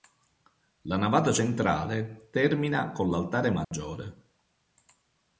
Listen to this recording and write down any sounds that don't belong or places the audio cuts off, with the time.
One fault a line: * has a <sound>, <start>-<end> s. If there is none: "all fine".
* has a dropout, 3.6-3.7 s